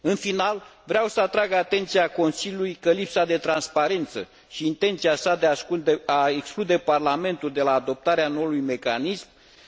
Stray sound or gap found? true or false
false